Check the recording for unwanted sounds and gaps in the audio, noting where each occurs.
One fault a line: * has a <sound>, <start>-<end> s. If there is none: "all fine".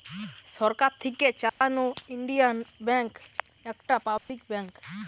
* has a dropout, 1.5-1.6 s
* has a dropout, 4.2-4.3 s